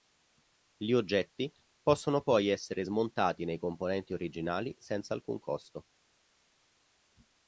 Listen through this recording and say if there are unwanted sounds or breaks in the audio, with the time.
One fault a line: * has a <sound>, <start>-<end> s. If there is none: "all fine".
all fine